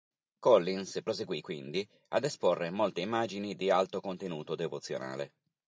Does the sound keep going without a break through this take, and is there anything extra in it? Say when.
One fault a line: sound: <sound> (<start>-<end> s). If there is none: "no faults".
no faults